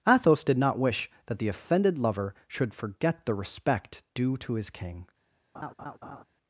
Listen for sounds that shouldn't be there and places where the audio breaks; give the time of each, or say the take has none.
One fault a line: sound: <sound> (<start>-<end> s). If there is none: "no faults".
sound: laugh (5.5-6.2 s)